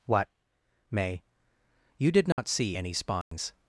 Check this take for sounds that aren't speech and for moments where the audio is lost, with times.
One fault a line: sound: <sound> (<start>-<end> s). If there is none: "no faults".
sound: dropout (2.3-2.4 s)
sound: dropout (3.2-3.3 s)